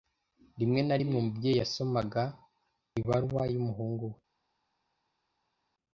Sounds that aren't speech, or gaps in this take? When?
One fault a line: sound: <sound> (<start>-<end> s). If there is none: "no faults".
no faults